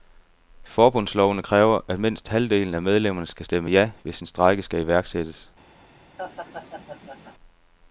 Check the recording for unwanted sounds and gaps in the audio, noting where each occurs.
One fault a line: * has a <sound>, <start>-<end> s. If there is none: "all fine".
* has a laugh, 6.2-7.3 s